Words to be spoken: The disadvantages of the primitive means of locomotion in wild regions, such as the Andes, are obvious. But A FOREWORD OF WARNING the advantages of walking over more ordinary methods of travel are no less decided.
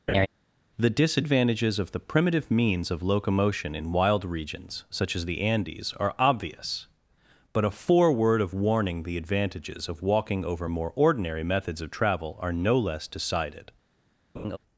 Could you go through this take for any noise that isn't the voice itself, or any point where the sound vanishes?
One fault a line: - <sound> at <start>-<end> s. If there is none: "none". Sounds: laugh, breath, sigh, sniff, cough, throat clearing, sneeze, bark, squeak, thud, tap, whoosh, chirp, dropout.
- laugh at 0.1-0.3 s
- laugh at 14.3-14.6 s